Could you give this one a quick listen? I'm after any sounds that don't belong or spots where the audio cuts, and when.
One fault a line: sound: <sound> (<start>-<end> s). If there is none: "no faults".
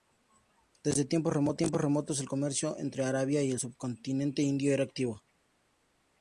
no faults